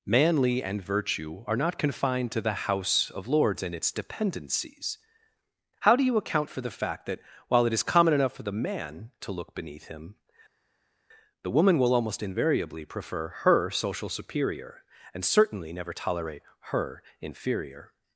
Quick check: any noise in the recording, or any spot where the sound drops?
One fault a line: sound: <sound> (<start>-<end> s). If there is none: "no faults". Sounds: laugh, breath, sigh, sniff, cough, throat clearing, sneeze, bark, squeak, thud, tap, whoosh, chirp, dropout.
no faults